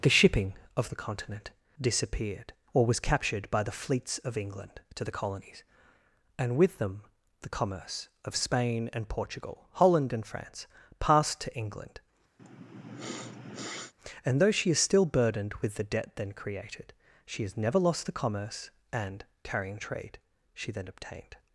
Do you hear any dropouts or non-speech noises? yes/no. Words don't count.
yes